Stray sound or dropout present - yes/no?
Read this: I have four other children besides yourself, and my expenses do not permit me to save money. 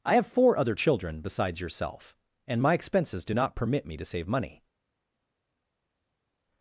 no